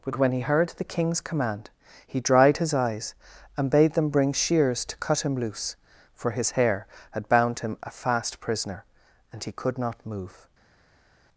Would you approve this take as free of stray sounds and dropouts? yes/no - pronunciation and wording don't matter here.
yes